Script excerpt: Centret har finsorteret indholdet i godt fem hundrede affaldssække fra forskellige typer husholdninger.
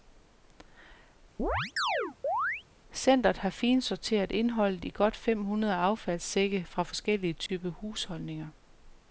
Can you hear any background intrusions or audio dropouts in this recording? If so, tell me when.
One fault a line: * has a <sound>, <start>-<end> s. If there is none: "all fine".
* has a chirp, 1.4-2.6 s
* has a dropout, 7.5-7.5 s